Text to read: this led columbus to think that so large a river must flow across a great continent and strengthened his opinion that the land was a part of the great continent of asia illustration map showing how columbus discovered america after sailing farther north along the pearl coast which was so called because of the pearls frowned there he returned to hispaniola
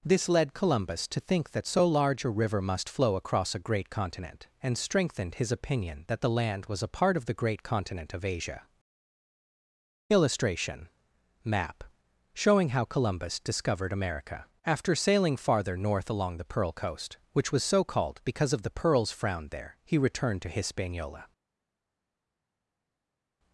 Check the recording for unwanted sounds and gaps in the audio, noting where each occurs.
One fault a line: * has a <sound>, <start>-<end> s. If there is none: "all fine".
all fine